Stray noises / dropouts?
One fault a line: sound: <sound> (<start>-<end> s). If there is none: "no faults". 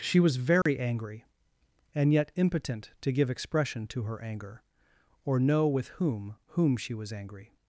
sound: dropout (0.6-0.7 s)